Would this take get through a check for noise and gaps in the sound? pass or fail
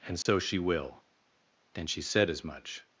fail